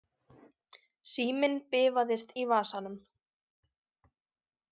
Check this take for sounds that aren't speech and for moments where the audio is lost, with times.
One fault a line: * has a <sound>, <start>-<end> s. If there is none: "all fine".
all fine